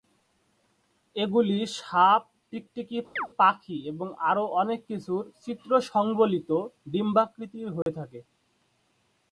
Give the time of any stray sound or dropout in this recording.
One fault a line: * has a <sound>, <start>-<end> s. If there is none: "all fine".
* has a chirp, 3.2-3.3 s
* has a dropout, 7.8-7.9 s